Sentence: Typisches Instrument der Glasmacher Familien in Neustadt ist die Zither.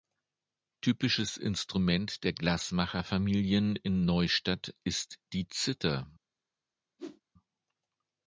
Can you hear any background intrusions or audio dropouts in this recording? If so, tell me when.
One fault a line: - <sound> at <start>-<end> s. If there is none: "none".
- whoosh at 7.0-7.2 s